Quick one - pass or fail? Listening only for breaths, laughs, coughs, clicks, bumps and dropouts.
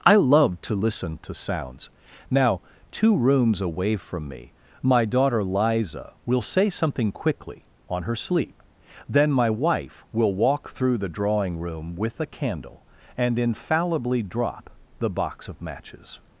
pass